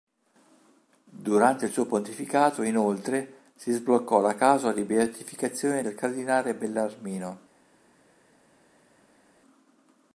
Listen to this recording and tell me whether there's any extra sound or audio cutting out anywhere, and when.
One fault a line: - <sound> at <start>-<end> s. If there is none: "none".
none